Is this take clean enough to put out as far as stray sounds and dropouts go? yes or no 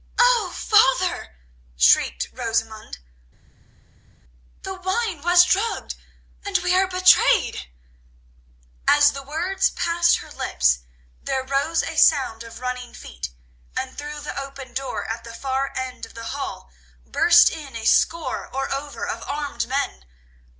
yes